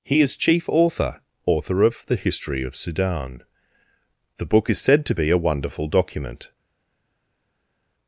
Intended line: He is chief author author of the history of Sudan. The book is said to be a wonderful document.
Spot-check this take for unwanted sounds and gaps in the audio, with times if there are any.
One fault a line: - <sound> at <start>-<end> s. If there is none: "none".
none